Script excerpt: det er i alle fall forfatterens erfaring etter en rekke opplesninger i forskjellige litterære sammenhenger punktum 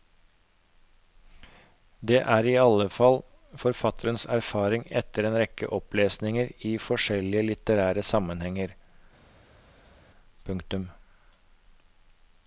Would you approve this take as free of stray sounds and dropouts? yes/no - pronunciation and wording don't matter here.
yes